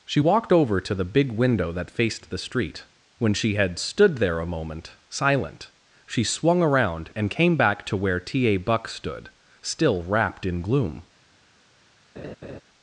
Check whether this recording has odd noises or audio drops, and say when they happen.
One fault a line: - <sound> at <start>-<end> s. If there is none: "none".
- laugh at 12.2-12.6 s